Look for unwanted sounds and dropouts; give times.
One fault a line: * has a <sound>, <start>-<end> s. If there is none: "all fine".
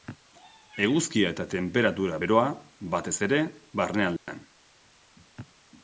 * has a dropout, 4.2-4.3 s